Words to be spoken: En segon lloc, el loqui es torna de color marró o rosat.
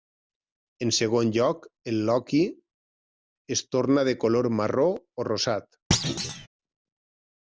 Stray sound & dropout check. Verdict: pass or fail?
fail